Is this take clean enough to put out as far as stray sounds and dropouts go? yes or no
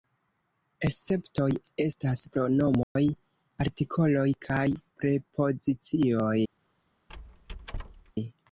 no